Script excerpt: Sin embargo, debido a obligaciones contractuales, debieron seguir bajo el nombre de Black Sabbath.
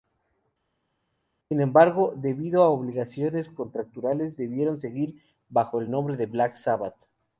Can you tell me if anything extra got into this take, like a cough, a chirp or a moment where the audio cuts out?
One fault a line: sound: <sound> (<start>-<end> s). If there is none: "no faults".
no faults